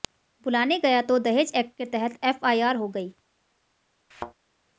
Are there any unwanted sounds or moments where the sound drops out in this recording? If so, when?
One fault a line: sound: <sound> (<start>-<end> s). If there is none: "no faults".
sound: thud (4.1-4.3 s)